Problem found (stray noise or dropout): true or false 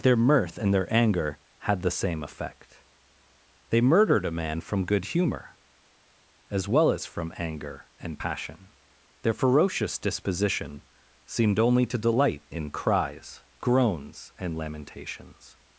false